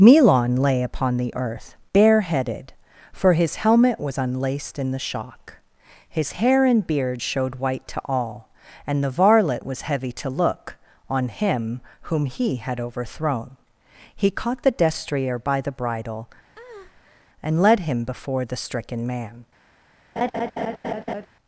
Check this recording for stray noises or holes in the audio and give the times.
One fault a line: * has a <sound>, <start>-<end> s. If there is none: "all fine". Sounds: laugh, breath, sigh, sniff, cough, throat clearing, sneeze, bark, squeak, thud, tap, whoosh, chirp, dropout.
* has a breath, 16.6-17.3 s
* has a laugh, 20.2-21.3 s